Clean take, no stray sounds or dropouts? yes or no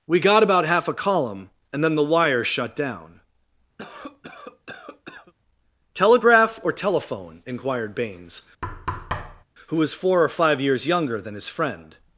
no